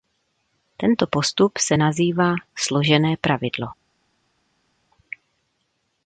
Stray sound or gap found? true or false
false